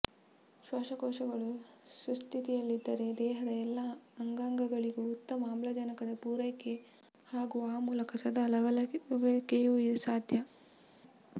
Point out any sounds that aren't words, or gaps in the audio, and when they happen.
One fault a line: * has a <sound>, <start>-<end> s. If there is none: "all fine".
all fine